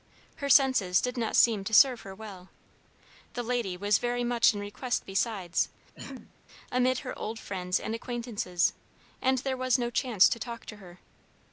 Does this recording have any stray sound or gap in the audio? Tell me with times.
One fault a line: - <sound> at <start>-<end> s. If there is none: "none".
- throat clearing at 5.9-6.3 s